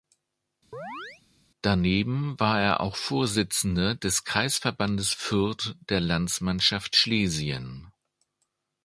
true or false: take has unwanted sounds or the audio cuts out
true